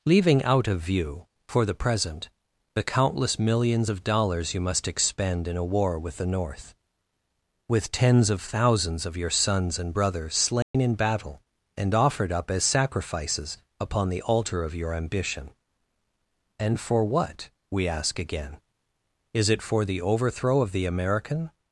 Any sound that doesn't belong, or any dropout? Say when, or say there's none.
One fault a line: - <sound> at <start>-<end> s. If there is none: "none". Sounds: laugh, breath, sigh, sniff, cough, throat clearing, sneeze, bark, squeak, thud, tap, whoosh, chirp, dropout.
- dropout at 10.6-10.7 s